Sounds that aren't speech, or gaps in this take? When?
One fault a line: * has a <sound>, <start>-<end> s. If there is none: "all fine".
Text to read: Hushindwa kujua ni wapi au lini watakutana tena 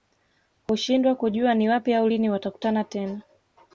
all fine